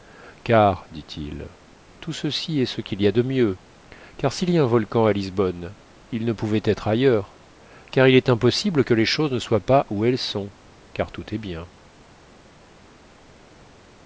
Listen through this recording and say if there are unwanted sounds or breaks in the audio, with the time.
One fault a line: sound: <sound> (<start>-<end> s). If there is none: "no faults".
no faults